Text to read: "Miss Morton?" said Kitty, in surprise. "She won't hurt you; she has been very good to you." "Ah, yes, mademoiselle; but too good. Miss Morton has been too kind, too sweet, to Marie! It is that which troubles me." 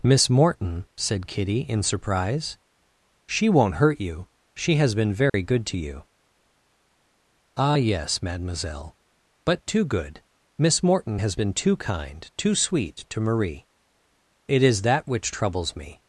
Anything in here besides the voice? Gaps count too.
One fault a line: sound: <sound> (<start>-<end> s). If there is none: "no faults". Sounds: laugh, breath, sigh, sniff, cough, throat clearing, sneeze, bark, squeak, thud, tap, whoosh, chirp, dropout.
sound: dropout (5.3-5.3 s)